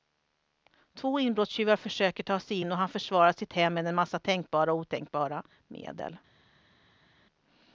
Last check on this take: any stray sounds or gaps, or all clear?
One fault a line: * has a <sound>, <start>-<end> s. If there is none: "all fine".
all fine